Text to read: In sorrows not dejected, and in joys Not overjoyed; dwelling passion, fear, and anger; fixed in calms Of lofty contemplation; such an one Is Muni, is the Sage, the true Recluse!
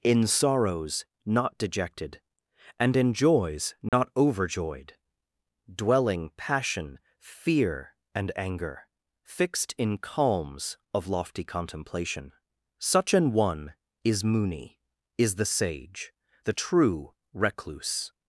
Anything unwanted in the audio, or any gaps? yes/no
yes